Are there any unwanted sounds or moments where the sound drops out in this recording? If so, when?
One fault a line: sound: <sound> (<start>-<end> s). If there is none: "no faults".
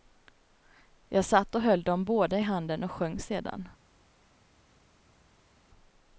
no faults